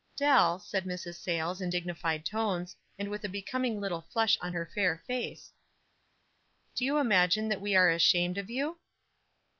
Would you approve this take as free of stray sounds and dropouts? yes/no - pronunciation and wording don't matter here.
yes